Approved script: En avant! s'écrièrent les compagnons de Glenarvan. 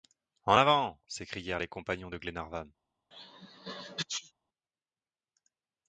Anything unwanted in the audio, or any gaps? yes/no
yes